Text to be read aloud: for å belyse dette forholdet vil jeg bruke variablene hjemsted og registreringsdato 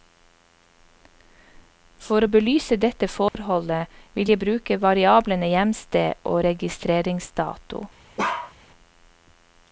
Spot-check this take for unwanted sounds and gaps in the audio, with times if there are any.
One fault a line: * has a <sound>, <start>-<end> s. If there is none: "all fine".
* has a dropout, 3.3-3.3 s
* has a bark, 8.2-8.5 s